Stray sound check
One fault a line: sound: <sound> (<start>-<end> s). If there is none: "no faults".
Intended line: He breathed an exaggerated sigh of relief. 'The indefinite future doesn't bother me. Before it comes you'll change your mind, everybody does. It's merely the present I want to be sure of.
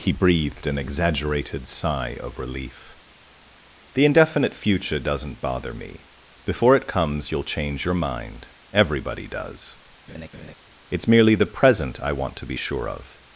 sound: laugh (10.1-10.6 s)